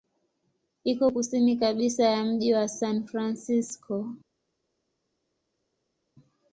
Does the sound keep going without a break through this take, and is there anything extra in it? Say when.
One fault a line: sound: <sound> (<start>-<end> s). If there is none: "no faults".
no faults